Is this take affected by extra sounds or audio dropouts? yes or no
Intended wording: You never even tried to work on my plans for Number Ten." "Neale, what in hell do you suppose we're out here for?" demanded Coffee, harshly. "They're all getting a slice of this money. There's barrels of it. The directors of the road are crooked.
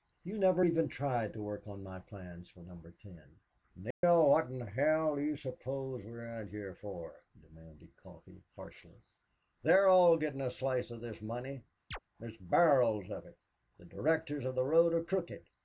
yes